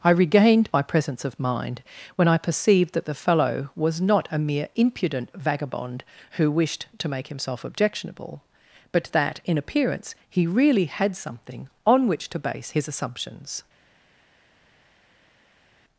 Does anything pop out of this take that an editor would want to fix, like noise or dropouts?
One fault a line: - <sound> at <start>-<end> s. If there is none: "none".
none